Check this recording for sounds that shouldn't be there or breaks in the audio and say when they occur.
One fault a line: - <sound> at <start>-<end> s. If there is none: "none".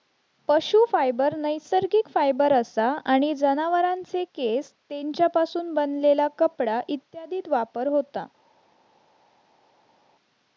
none